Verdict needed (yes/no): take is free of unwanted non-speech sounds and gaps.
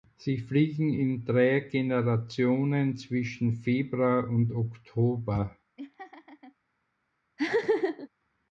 no